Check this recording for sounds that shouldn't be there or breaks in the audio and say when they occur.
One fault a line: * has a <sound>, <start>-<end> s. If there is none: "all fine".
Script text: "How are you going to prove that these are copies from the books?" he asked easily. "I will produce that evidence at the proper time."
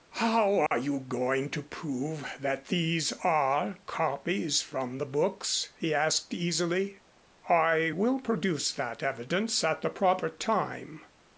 * has a dropout, 0.7-0.7 s